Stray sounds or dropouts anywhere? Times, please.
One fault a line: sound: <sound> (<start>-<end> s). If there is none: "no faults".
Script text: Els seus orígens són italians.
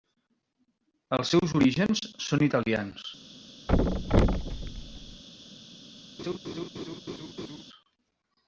sound: thud (3.7-5.2 s)
sound: laugh (6.2-7.6 s)